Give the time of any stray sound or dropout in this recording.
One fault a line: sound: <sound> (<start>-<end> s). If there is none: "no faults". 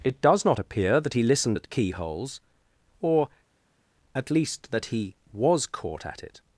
no faults